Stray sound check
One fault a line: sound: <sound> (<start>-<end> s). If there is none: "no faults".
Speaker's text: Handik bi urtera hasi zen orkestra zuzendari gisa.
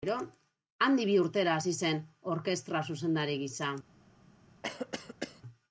sound: cough (4.6-5.4 s)